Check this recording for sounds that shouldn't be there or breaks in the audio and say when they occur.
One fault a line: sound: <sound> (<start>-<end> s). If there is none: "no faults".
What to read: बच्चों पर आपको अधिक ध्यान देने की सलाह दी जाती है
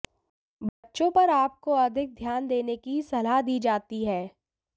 sound: dropout (0.7-0.8 s)